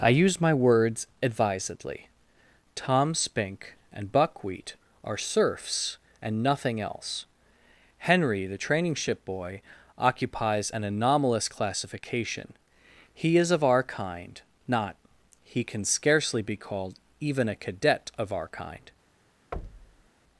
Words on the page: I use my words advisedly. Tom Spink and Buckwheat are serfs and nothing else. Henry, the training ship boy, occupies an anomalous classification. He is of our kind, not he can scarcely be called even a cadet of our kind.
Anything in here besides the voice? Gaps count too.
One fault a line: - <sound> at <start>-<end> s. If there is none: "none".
- thud at 19.5-20.1 s